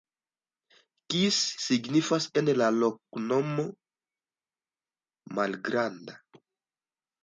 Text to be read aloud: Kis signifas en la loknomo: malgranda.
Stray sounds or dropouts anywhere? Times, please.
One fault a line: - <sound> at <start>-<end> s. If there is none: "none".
none